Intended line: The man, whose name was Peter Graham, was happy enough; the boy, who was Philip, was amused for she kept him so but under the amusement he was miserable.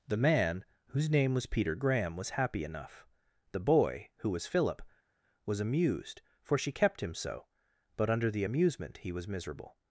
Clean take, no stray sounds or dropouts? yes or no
yes